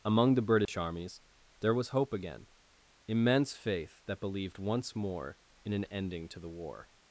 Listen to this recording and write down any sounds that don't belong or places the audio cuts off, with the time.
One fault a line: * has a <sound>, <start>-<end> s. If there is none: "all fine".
* has a dropout, 0.7-0.7 s